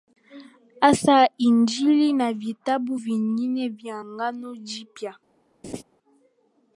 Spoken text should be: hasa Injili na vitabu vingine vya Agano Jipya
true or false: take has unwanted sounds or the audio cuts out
true